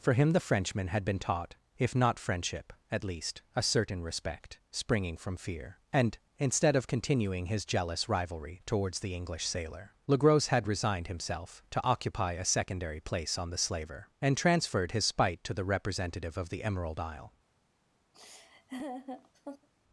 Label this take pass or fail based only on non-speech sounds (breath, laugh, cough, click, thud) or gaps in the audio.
fail